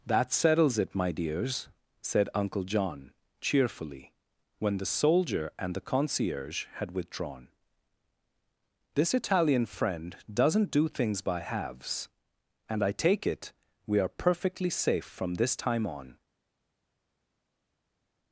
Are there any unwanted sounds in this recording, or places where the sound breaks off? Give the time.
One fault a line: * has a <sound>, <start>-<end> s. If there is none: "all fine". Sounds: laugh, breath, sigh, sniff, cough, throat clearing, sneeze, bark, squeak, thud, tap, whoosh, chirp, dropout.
all fine